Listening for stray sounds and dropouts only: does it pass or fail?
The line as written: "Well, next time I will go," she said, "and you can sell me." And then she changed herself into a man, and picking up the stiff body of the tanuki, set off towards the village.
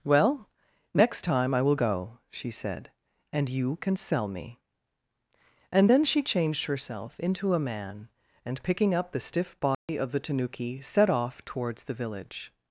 fail